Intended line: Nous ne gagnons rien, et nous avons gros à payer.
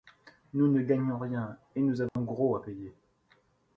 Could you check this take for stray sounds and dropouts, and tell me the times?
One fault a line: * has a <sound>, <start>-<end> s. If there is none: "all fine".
* has a dropout, 2.1-2.2 s